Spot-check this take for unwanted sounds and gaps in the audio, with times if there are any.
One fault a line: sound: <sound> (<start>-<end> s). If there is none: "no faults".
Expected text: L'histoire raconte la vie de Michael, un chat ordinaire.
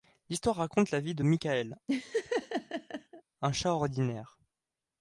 sound: laugh (1.9-3.2 s)